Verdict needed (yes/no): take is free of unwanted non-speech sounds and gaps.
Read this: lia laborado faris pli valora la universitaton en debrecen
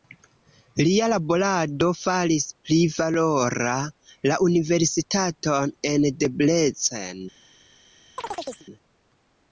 no